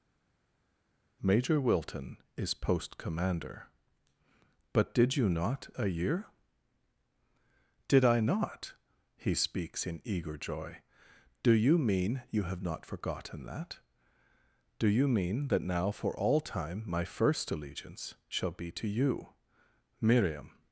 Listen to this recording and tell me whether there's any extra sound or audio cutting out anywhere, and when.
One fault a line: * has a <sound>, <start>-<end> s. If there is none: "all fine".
all fine